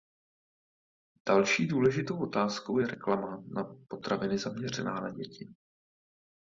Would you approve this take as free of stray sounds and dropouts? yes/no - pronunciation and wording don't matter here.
yes